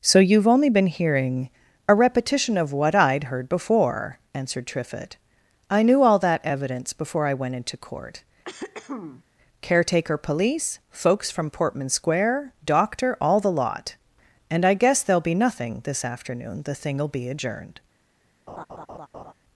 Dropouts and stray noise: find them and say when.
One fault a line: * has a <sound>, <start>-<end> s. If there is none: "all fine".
* has a throat clearing, 8.4-9.2 s
* has a laugh, 18.5-19.3 s